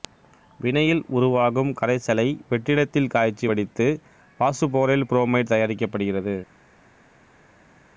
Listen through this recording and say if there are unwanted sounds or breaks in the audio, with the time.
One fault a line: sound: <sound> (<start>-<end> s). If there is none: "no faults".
no faults